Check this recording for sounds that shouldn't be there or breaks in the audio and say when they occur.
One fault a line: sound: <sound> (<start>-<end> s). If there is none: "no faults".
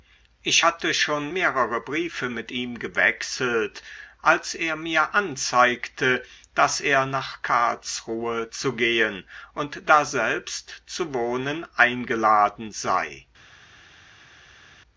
no faults